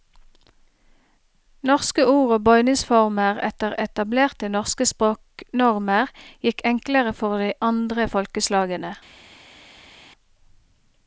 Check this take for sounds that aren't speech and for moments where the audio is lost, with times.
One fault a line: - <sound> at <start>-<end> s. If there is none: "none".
none